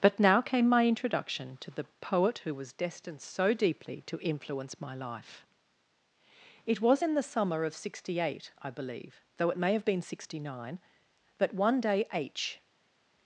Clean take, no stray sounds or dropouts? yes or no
yes